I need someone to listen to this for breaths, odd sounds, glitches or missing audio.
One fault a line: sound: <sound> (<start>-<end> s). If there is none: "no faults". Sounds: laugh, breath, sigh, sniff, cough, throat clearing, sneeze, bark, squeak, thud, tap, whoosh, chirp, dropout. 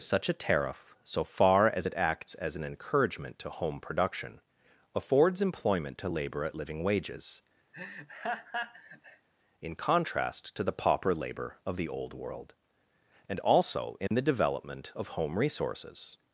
sound: laugh (7.7-9.3 s)
sound: dropout (14.1-14.1 s)